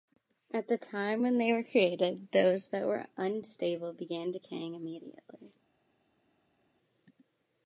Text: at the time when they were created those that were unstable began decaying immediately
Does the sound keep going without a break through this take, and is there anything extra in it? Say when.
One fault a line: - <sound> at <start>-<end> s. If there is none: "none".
none